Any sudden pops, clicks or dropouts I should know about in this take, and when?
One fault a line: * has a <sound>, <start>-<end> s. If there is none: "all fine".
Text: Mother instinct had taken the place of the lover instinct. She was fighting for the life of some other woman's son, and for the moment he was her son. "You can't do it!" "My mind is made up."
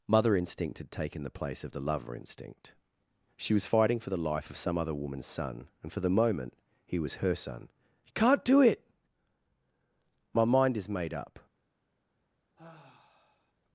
* has a sigh, 12.6-13.5 s